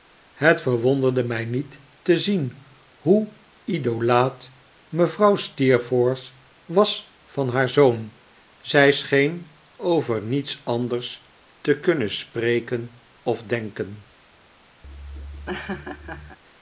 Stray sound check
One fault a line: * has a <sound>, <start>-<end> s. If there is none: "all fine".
* has a laugh, 14.8-16.4 s